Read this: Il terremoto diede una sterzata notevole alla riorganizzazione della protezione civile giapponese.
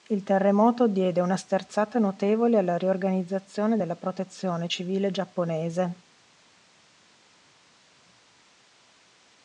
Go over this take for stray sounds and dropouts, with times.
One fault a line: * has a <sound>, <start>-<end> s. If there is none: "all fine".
all fine